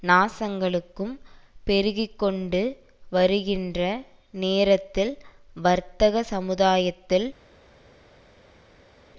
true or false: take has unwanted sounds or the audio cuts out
false